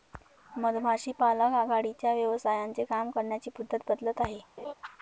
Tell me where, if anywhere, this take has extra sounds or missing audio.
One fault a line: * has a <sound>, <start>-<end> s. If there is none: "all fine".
* has a laugh, 4.6-4.7 s